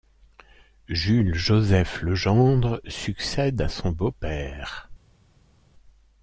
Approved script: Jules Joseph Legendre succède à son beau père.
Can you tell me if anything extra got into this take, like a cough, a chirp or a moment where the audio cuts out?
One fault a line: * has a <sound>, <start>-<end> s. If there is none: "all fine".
all fine